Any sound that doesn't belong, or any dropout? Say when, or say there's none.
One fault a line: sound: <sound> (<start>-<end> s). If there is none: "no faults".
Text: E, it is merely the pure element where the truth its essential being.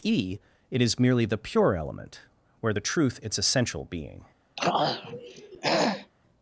sound: throat clearing (4.6-6.1 s)